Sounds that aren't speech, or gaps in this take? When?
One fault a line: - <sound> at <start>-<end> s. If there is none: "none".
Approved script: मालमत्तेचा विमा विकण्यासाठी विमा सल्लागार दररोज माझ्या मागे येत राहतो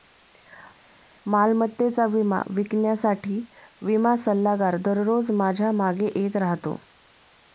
none